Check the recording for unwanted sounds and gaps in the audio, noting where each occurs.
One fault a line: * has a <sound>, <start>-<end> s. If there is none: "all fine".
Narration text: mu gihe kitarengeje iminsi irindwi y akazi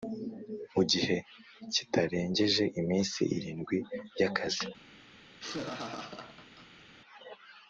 * has a laugh, 5.3-6.9 s